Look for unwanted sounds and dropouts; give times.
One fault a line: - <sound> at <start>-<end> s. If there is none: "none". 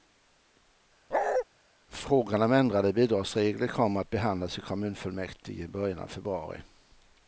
- bark at 1.1-1.4 s